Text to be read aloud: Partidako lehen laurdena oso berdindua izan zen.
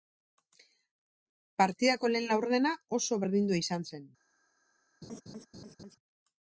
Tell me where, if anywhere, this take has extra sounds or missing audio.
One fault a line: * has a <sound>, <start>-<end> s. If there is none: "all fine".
* has a laugh, 5.0-6.0 s